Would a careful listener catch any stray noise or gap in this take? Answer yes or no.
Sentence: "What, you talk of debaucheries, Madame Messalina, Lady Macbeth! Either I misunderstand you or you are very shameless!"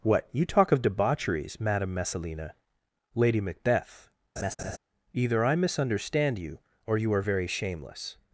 yes